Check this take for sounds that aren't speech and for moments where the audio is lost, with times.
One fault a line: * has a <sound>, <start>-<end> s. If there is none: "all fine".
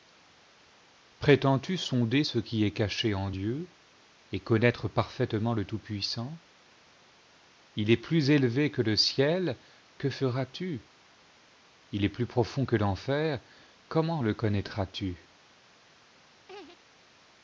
* has a laugh, 16.5-16.8 s